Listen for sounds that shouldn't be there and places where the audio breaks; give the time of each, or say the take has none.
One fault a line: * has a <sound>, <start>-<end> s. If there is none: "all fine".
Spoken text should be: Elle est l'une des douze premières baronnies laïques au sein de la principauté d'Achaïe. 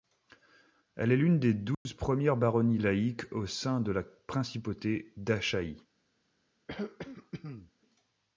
* has a dropout, 1.7-1.9 s
* has a throat clearing, 6.7-7.7 s